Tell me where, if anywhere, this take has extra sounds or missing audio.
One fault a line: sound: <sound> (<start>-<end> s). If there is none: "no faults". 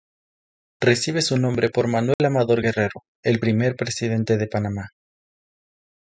sound: dropout (2.1-2.2 s)